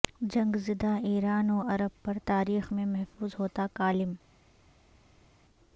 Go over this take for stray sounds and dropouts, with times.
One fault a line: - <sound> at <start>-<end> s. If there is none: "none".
none